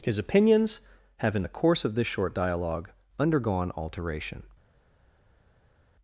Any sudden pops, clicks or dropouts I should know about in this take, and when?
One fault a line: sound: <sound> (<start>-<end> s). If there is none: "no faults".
no faults